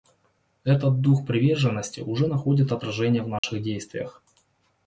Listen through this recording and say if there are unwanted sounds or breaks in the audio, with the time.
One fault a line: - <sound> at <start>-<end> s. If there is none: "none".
- dropout at 3.4-3.4 s